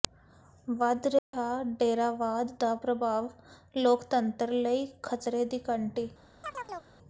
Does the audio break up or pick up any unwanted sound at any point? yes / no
yes